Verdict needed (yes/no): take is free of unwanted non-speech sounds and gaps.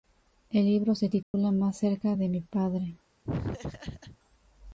no